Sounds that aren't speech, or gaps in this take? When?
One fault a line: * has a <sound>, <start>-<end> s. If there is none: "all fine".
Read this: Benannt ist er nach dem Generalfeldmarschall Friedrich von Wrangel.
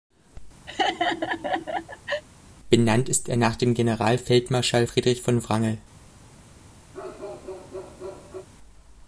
* has a laugh, 0.7-2.2 s
* has a bark, 6.9-8.5 s